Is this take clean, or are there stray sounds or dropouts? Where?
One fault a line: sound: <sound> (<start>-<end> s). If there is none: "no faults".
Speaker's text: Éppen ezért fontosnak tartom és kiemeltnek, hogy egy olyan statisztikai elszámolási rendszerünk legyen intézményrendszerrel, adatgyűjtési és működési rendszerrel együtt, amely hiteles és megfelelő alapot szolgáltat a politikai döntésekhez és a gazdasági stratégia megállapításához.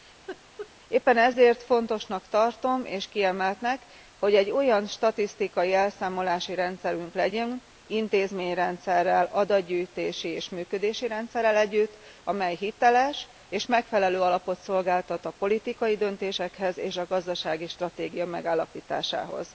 sound: laugh (0.3-0.7 s)